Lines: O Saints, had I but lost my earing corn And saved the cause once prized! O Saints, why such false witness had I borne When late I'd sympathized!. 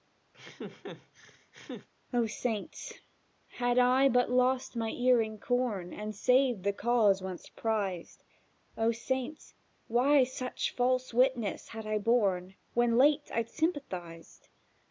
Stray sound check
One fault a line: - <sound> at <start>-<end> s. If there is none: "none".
- laugh at 0.3-1.9 s